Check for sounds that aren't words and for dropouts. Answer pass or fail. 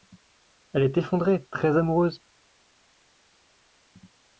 pass